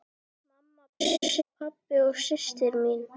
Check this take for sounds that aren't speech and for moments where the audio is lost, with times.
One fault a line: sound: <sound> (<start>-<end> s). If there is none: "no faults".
sound: laugh (1.0-1.4 s)